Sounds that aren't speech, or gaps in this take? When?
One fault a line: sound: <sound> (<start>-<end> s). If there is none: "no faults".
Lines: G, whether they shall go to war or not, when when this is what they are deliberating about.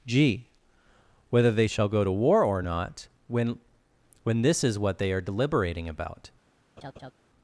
sound: laugh (6.8-7.1 s)